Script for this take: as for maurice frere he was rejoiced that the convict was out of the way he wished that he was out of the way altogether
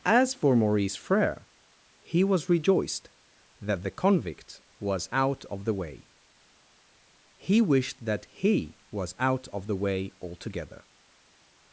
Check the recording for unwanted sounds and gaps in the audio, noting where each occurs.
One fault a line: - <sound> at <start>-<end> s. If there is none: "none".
none